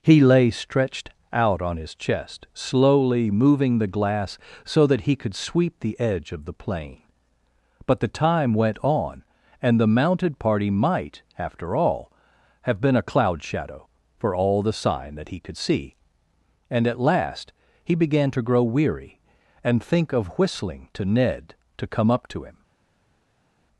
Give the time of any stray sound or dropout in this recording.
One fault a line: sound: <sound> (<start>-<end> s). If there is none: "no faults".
no faults